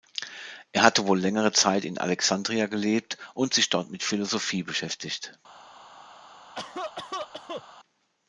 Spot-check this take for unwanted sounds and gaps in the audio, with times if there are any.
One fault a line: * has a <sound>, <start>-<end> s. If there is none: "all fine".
* has a cough, 6.6-7.6 s